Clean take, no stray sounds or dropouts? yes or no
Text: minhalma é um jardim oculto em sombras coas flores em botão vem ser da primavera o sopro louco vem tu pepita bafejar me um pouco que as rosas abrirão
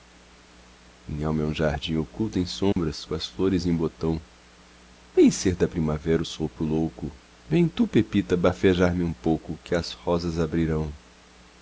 no